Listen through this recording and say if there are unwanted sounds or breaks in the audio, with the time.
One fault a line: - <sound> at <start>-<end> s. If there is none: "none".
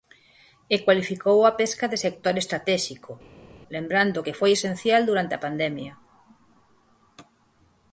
none